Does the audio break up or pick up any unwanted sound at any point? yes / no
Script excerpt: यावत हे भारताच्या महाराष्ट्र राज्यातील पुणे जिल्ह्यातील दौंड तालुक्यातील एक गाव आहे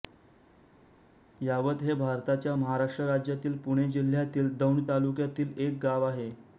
no